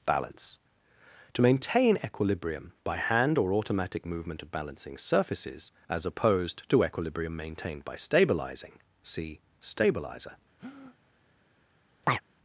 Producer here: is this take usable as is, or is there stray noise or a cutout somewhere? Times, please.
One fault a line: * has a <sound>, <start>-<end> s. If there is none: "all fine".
* has a breath, 10.6-11.0 s
* has a chirp, 12.0-12.2 s